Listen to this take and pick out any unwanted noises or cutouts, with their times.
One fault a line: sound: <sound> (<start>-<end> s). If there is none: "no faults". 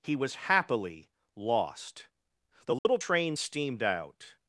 sound: dropout (2.8-2.9 s)